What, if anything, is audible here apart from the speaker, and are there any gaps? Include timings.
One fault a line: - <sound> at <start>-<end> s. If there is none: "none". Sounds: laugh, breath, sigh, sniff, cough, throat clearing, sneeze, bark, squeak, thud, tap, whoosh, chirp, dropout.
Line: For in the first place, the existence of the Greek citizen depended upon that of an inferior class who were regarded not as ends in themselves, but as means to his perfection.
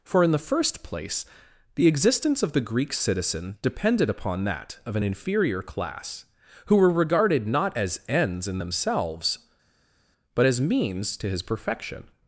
none